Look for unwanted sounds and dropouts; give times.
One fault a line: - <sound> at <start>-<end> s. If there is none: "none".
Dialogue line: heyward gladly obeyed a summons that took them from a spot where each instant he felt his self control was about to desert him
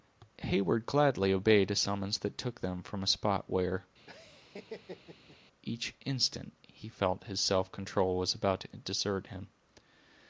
- laugh at 4.1-5.4 s